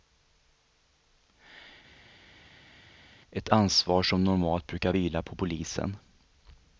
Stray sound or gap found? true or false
false